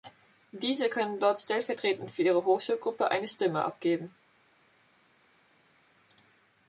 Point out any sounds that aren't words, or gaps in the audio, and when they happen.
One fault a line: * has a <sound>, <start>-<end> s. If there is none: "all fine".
all fine